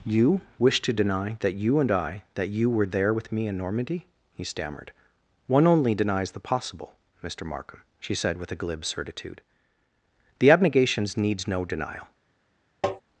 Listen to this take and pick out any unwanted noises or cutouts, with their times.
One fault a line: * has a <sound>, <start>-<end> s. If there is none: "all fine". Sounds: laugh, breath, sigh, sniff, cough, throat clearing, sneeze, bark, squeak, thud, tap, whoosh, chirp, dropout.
* has a tap, 12.8-13.0 s